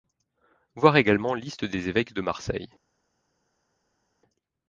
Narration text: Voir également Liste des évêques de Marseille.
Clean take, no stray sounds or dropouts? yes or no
yes